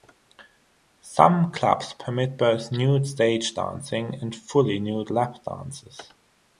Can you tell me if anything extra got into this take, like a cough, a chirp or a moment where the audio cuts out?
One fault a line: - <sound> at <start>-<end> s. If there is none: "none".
none